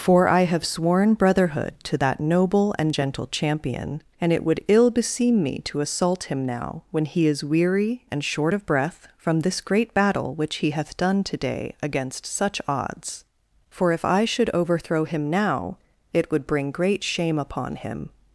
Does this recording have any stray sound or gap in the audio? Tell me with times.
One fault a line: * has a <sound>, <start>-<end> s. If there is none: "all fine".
all fine